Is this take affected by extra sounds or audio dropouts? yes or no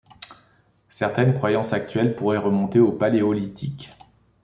no